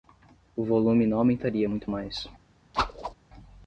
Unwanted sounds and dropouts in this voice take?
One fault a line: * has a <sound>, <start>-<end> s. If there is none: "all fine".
* has a whoosh, 2.7-3.1 s